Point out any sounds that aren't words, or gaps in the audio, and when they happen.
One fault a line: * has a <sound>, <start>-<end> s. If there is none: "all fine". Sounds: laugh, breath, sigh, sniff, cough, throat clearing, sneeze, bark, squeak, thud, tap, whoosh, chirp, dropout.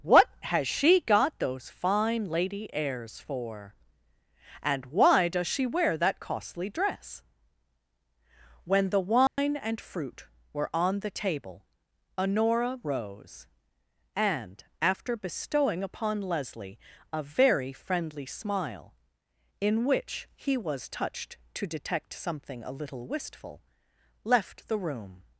* has a dropout, 9.3-9.4 s